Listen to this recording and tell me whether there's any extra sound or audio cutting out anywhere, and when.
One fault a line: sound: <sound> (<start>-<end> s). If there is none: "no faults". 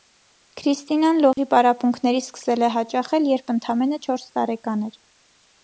sound: dropout (1.3-1.4 s)